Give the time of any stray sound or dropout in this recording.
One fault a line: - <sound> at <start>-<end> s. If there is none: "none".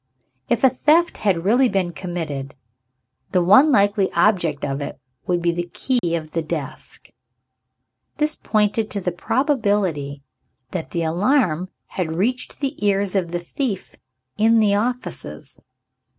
- dropout at 6.0-6.0 s